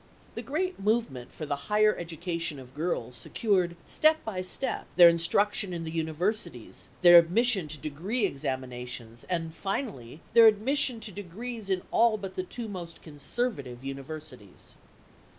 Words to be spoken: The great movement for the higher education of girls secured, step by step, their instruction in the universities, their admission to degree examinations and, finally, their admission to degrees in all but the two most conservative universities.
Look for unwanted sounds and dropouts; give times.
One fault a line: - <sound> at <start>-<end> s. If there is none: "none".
none